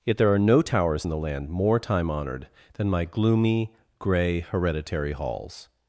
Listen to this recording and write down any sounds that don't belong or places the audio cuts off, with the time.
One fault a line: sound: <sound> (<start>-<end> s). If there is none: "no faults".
no faults